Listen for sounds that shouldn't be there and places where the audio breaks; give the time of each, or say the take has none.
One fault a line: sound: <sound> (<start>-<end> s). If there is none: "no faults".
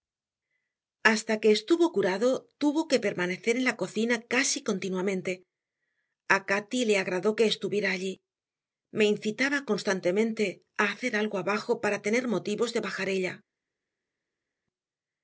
no faults